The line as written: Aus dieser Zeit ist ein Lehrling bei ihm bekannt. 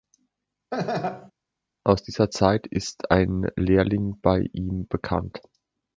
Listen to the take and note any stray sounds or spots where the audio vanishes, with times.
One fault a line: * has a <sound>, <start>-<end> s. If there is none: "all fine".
* has a laugh, 0.7-1.3 s